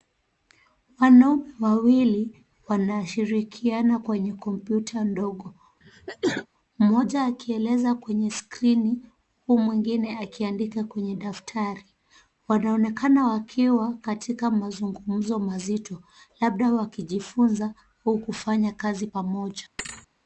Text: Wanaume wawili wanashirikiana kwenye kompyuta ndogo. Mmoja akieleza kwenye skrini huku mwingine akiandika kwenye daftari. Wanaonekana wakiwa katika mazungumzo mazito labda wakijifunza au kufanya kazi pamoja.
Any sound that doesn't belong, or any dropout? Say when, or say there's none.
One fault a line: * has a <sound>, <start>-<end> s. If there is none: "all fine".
* has a sneeze, 5.8-6.5 s
* has a thud, 19.8-20.1 s